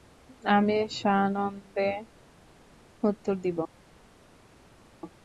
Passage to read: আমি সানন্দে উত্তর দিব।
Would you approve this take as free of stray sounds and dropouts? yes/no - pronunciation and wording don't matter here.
yes